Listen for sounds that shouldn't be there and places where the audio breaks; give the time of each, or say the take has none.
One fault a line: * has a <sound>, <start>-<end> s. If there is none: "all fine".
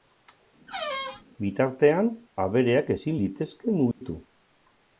* has a squeak, 0.7-1.2 s
* has a dropout, 3.9-4.0 s